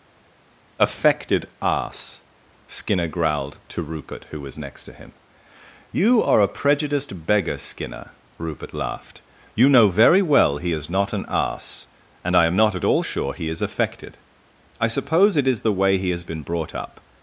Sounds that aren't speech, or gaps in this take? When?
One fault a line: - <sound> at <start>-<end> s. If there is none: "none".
none